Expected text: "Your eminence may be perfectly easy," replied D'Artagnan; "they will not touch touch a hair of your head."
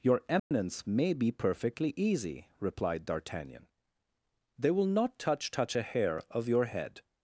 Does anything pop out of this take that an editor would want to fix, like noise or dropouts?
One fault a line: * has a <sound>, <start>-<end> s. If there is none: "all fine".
* has a dropout, 0.4-0.5 s